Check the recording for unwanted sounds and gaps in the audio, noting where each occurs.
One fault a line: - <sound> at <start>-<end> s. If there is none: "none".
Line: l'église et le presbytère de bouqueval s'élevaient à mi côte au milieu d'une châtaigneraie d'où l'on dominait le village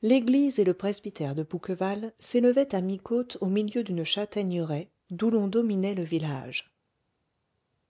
none